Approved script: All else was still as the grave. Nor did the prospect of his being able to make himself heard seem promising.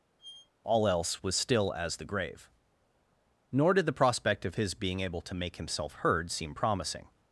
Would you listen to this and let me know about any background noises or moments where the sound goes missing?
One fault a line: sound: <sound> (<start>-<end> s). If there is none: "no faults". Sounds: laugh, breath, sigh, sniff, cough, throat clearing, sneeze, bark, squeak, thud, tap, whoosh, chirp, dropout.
sound: squeak (0.2-0.5 s)